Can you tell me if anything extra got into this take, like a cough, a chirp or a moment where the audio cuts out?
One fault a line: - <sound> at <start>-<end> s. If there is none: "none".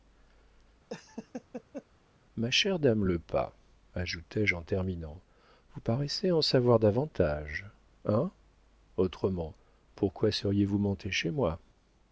- laugh at 0.9-1.9 s